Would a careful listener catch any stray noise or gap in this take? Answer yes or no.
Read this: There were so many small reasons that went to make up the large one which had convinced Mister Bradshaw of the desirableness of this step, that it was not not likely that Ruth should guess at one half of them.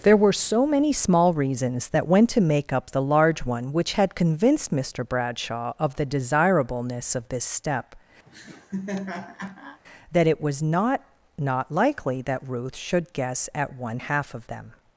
yes